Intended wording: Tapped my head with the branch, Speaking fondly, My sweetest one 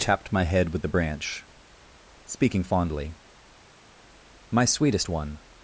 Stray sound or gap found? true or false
false